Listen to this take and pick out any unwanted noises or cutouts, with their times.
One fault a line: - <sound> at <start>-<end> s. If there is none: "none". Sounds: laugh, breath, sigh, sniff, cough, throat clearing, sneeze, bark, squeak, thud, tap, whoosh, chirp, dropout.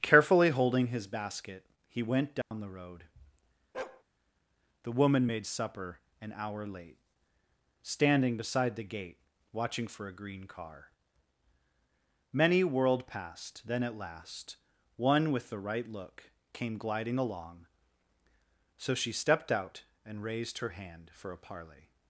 - dropout at 2.4-2.5 s
- bark at 3.7-4.0 s